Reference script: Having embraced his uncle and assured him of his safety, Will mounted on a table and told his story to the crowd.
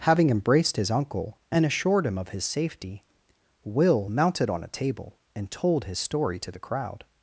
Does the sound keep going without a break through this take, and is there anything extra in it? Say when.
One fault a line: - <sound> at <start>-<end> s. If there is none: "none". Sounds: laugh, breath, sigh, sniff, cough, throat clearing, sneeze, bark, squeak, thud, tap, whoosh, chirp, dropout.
none